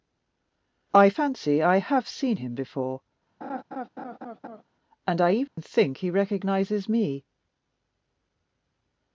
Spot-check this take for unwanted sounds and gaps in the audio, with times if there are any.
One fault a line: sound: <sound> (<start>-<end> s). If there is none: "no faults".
sound: laugh (3.4-4.6 s)
sound: dropout (5.5-5.6 s)